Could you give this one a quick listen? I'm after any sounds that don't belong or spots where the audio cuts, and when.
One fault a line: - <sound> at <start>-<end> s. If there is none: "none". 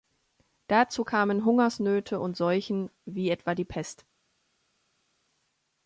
none